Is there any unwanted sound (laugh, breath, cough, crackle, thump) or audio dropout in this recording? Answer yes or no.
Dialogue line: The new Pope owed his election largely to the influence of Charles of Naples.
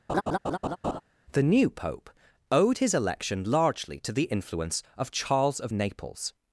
yes